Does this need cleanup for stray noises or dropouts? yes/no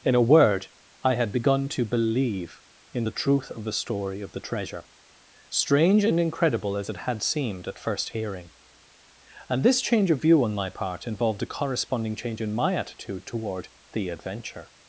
no